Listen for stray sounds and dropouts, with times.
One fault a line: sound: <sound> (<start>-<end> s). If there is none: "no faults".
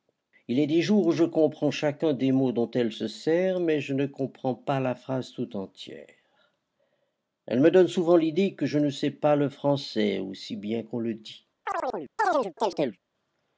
sound: chirp (11.7-13.0 s)